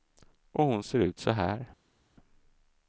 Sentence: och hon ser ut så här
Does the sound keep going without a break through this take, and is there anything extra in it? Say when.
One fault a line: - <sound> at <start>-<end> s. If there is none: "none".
none